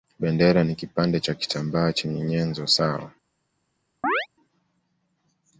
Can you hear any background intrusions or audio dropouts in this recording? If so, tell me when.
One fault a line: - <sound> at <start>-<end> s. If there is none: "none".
- chirp at 4.0-4.3 s